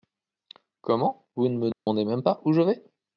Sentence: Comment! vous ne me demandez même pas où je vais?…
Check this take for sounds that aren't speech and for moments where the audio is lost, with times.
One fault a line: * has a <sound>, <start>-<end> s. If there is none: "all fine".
* has a dropout, 1.7-1.9 s